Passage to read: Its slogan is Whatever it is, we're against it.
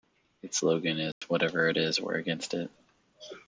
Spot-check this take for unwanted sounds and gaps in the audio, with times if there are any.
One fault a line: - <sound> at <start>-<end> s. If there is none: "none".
- dropout at 1.1-1.2 s